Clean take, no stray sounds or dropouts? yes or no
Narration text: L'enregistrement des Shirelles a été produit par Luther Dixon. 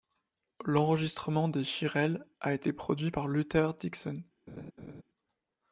no